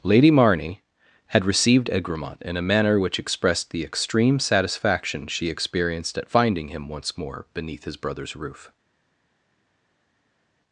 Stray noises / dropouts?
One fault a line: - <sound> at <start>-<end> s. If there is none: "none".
none